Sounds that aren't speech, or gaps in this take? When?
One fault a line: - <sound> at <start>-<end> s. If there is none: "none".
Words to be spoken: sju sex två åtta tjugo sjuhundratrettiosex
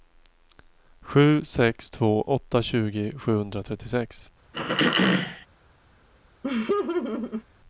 - throat clearing at 4.5-5.5 s
- laugh at 6.4-7.4 s